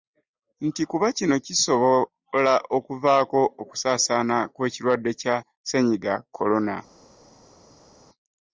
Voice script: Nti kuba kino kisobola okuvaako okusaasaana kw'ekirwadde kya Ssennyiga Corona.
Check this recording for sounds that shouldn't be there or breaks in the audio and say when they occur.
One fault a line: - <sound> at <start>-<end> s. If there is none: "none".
none